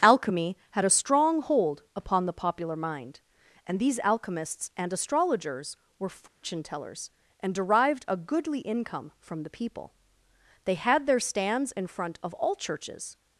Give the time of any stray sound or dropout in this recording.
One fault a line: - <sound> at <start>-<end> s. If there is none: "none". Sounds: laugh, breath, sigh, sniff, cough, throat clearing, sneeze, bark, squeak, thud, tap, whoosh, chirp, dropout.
- dropout at 6.3-6.4 s